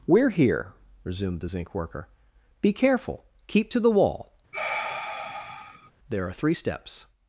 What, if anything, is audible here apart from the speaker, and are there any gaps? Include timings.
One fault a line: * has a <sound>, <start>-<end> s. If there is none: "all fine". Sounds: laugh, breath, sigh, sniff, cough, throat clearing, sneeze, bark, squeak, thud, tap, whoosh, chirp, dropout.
* has a sigh, 4.5-5.9 s